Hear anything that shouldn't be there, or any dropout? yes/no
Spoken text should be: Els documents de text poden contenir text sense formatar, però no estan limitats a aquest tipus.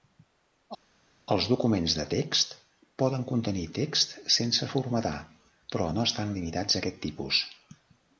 no